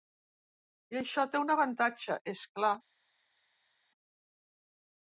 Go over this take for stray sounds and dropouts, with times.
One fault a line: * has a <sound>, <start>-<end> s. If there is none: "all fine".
all fine